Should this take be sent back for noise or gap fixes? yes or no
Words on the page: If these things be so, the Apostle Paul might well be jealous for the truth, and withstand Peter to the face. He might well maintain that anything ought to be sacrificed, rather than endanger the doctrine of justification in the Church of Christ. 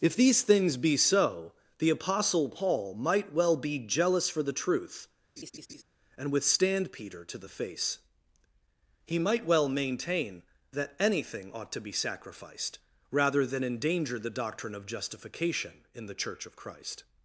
yes